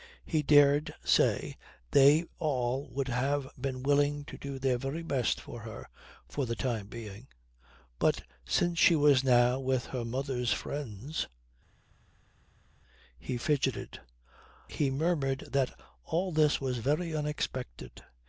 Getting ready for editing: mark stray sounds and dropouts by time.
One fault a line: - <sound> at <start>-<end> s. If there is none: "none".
none